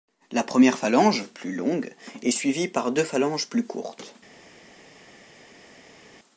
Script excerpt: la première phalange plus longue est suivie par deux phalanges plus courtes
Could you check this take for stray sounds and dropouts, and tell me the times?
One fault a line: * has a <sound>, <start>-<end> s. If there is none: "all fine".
all fine